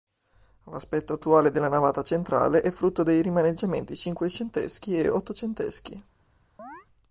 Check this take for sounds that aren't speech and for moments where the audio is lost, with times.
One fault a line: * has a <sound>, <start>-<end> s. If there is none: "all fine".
* has a chirp, 6.6-6.9 s